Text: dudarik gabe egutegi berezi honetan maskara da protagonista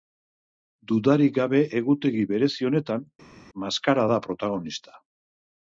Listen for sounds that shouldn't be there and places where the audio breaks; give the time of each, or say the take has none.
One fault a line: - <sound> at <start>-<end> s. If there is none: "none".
none